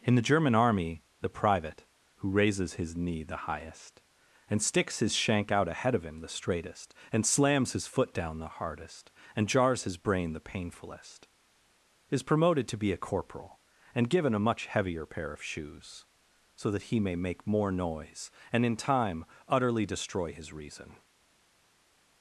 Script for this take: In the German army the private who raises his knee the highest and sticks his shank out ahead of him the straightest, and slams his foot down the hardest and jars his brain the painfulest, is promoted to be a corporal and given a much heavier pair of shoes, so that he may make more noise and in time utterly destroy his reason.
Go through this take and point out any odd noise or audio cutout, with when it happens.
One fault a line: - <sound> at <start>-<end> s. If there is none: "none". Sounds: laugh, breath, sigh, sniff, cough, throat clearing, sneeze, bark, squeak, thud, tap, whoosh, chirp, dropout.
none